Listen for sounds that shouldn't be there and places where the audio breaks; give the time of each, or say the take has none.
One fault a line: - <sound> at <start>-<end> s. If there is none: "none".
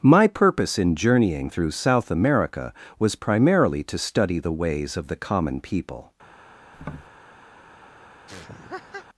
- tap at 6.7-7.1 s
- laugh at 8.3-9.1 s